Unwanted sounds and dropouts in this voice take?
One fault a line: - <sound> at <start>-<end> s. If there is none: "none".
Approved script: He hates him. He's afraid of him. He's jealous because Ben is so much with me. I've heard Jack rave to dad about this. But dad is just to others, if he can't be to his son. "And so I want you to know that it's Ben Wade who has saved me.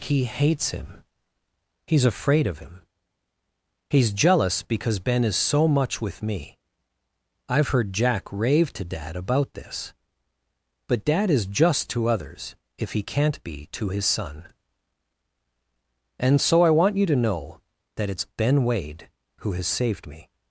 none